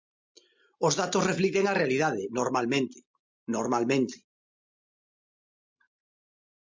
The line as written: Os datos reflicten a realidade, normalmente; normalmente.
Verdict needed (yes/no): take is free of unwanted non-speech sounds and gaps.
yes